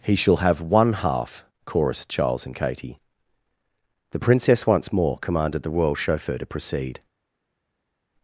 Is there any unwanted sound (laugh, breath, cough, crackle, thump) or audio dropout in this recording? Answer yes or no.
no